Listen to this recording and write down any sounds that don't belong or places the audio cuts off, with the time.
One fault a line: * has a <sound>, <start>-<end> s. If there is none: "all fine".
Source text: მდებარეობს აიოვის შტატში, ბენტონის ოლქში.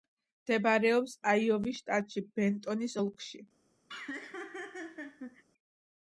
* has a laugh, 3.9-5.4 s